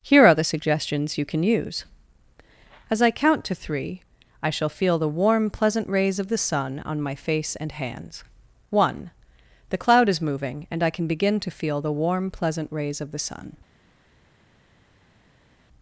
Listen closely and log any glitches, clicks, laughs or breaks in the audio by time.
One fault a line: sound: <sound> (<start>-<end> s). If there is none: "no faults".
no faults